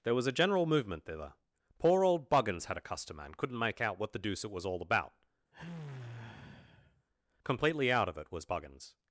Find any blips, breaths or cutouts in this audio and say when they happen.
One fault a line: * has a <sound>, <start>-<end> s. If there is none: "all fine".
* has a sigh, 5.5-7.1 s